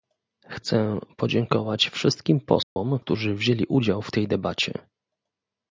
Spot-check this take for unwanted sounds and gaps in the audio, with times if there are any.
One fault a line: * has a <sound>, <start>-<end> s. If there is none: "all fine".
* has a dropout, 2.6-2.8 s